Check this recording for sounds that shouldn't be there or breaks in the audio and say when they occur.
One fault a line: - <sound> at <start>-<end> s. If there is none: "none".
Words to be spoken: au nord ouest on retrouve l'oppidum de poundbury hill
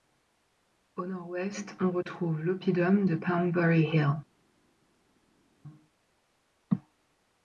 none